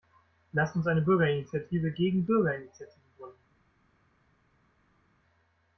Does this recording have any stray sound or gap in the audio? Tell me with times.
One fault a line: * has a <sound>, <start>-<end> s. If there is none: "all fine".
all fine